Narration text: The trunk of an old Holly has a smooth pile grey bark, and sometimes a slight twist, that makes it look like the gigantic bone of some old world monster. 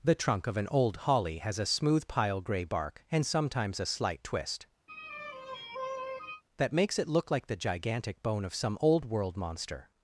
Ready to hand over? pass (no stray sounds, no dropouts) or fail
fail